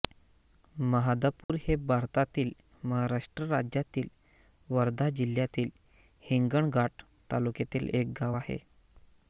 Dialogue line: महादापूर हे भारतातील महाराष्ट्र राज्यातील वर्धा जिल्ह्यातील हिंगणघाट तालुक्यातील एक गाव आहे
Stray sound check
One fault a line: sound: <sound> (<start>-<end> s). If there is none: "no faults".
sound: dropout (1.4-1.5 s)